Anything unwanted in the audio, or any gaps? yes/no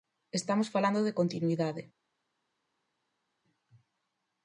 no